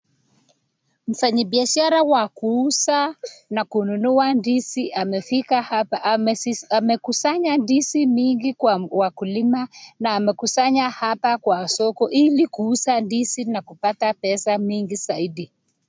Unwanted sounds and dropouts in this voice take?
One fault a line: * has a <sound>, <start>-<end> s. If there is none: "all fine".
all fine